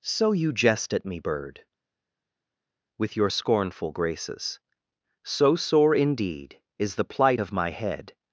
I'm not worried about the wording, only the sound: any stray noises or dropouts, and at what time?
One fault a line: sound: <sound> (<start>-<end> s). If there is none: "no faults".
no faults